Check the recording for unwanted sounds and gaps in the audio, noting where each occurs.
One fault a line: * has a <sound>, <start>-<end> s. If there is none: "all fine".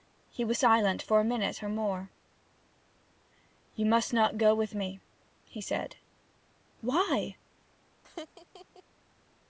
* has a laugh, 8.0-8.8 s